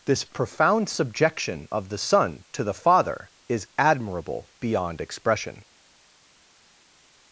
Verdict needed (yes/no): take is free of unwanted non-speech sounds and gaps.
yes